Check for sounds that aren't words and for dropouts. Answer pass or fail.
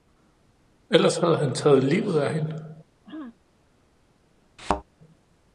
fail